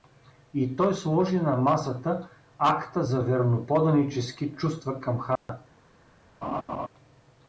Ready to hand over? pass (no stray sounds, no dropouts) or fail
fail